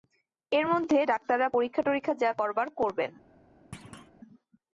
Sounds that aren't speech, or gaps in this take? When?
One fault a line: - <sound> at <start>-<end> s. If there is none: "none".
- thud at 3.7-4.1 s